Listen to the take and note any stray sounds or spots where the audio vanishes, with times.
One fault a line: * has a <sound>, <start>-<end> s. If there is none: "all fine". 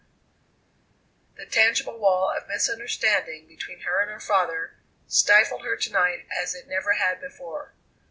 all fine